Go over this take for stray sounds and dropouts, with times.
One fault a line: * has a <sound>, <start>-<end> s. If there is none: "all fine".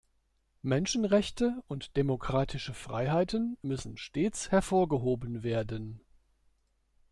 all fine